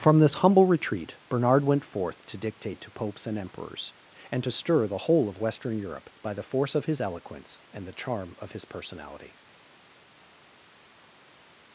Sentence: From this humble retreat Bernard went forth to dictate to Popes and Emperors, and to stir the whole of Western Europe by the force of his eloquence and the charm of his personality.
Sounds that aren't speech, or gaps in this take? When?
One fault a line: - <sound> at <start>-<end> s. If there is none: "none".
none